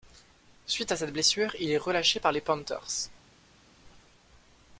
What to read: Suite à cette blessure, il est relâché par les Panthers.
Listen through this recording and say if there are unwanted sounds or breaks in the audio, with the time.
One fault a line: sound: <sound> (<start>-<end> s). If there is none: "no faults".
no faults